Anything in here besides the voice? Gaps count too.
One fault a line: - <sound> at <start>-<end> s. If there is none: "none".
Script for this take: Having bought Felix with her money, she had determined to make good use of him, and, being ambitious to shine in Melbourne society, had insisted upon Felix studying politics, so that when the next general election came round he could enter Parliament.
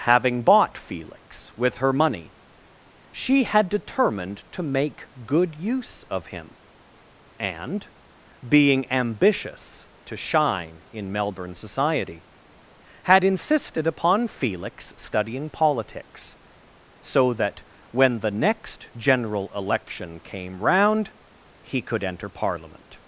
none